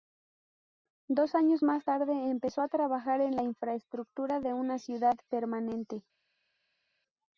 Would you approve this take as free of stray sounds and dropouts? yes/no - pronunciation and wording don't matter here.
yes